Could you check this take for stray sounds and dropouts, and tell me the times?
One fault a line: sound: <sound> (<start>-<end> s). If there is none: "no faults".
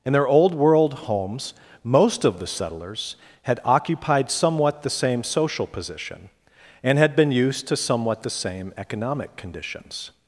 no faults